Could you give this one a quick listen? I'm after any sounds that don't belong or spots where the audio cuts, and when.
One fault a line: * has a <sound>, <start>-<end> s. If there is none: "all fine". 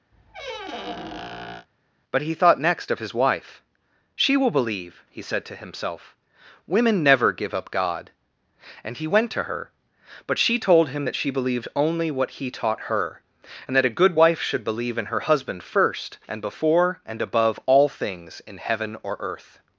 * has a squeak, 0.1-1.7 s